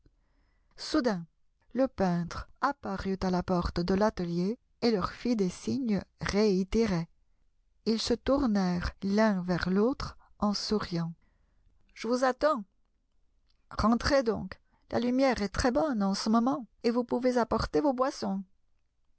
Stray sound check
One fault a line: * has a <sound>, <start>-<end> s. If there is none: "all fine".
all fine